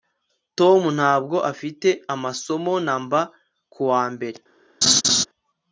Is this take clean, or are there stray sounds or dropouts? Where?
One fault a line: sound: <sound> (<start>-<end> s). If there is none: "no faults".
sound: laugh (4.8-5.2 s)